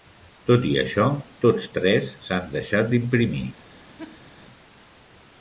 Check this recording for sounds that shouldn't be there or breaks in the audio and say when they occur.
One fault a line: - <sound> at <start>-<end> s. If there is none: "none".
- laugh at 4.0-4.3 s